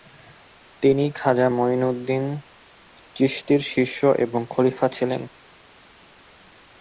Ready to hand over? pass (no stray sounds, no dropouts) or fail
pass